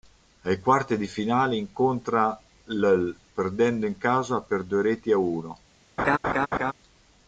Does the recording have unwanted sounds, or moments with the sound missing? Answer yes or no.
yes